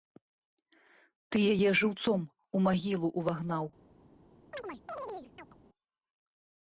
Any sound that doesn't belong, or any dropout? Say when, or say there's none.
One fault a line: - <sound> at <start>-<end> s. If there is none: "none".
- chirp at 4.5-5.6 s